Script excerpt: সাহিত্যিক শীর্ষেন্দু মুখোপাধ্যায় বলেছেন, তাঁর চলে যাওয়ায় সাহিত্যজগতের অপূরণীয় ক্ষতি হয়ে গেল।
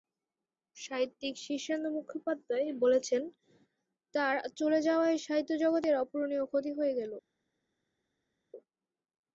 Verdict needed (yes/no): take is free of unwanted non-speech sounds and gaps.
yes